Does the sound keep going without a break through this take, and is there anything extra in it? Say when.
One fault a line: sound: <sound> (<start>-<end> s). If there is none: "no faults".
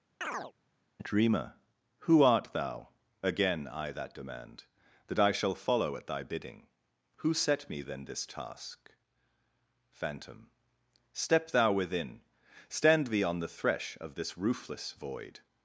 sound: chirp (0.2-0.5 s)